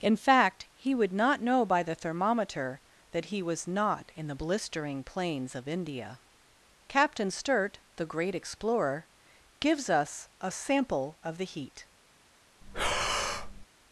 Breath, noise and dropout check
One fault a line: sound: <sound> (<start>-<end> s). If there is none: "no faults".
sound: breath (12.6-13.7 s)